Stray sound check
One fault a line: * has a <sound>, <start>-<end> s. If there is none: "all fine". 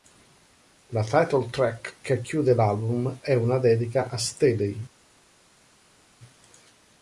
all fine